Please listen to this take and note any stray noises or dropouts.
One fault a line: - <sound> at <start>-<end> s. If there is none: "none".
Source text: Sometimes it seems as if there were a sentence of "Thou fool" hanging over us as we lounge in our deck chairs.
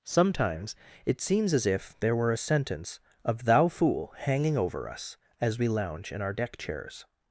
none